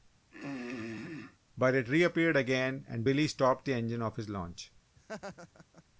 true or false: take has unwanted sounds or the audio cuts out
true